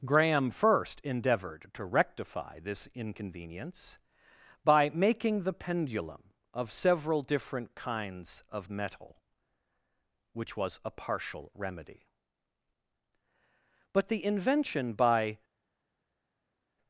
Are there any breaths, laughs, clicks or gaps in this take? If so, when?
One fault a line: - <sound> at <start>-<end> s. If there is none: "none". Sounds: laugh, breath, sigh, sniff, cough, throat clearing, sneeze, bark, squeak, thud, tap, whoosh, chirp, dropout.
none